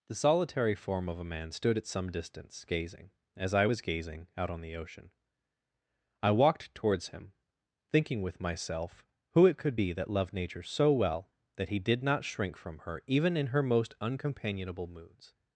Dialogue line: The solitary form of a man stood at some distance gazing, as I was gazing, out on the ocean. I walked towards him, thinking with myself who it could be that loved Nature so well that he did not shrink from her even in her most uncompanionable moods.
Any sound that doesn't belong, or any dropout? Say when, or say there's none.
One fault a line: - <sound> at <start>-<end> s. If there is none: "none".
none